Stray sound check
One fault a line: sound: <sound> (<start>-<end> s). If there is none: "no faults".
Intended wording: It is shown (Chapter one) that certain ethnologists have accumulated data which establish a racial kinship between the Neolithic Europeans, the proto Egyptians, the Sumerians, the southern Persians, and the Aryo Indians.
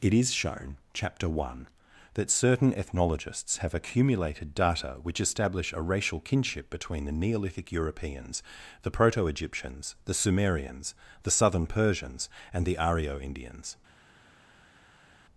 no faults